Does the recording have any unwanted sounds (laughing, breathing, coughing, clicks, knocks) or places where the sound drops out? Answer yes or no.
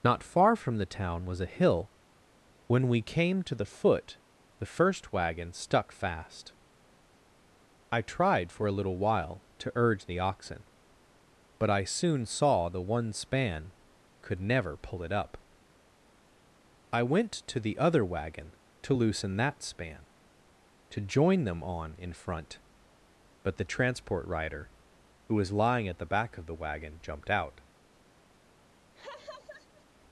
yes